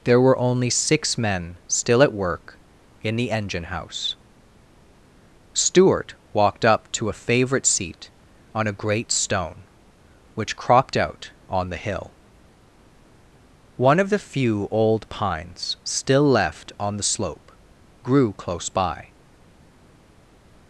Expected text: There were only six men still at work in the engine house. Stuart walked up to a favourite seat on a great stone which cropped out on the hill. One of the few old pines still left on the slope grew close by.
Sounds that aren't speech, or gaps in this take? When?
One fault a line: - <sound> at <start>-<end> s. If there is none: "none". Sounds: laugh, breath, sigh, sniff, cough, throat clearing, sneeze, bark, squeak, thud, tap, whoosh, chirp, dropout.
none